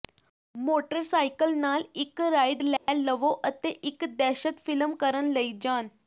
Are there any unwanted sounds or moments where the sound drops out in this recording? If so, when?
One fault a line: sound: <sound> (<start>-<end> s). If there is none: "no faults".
sound: dropout (2.8-2.9 s)